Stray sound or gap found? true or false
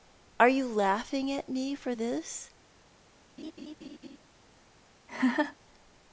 true